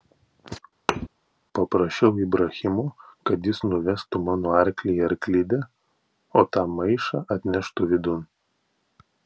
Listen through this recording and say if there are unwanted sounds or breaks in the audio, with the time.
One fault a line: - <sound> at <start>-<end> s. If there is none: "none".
- thud at 0.9-1.1 s